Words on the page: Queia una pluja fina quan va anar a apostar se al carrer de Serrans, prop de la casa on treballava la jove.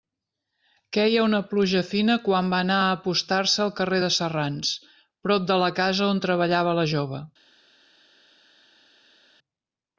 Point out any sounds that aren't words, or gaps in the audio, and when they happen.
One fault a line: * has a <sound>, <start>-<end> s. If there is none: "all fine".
all fine